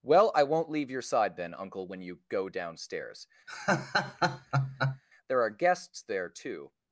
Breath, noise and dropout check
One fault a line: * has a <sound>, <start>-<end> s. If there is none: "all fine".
* has a laugh, 3.5-5.0 s